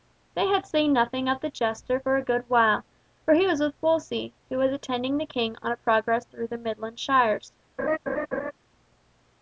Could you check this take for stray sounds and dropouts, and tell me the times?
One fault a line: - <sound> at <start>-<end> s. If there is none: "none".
- laugh at 7.8-8.5 s